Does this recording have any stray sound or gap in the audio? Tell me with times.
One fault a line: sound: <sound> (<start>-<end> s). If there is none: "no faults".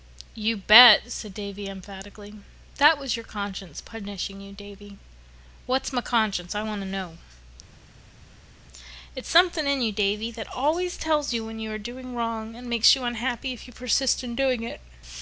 no faults